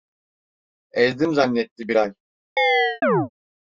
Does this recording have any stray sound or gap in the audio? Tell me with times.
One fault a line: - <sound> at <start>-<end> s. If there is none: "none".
- chirp at 2.6-3.3 s